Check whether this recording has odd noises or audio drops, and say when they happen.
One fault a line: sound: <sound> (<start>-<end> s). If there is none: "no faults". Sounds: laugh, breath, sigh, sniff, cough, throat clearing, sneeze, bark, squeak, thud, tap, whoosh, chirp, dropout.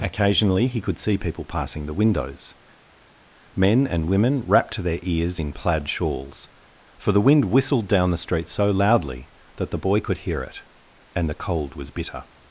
no faults